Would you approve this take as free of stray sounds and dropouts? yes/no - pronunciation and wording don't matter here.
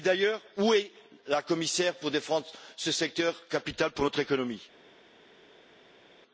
yes